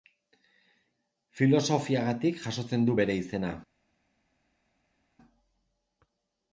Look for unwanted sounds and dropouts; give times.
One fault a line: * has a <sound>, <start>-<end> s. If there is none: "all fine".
all fine